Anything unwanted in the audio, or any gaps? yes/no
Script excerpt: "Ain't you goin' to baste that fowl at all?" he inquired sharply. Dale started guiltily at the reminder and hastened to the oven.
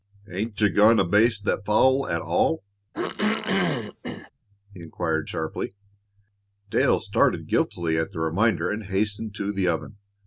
yes